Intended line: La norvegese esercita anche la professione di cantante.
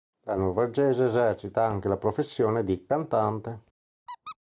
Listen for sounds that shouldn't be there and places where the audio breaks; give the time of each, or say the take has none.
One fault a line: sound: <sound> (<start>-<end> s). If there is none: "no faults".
sound: squeak (4.1-4.4 s)